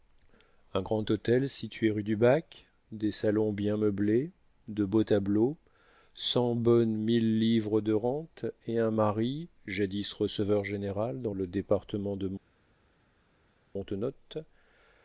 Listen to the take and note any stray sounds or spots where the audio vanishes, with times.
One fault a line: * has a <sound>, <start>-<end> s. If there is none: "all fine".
all fine